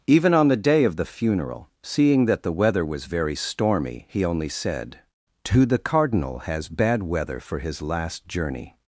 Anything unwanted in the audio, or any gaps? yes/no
no